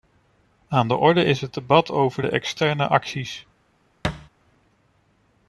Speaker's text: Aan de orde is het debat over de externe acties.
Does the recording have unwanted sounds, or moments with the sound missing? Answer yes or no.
yes